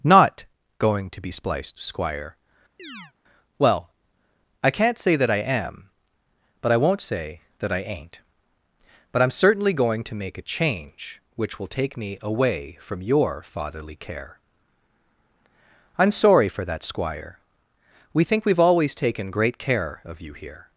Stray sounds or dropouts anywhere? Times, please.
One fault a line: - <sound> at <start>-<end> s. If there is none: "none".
- chirp at 2.8-3.1 s